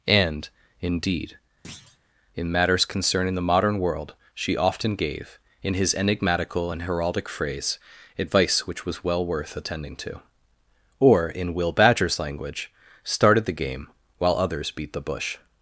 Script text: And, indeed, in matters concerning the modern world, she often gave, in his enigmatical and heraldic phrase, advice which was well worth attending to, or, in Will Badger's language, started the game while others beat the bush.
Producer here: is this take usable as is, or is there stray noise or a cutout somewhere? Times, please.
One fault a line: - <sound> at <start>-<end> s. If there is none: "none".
- thud at 1.6-2.0 s